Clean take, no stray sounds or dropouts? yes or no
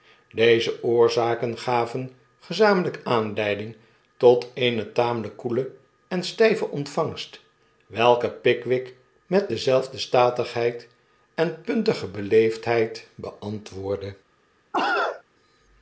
no